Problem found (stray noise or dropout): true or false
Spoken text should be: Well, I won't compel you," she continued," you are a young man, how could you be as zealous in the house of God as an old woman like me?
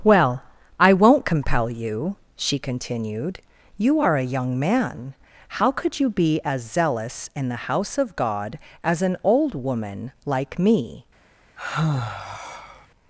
true